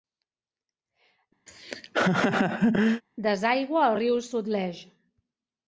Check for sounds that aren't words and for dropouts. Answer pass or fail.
fail